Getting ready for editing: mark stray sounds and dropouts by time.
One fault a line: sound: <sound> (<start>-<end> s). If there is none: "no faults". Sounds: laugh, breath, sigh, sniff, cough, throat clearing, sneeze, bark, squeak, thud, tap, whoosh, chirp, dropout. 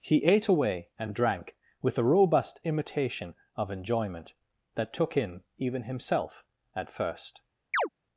sound: chirp (7.7-7.9 s)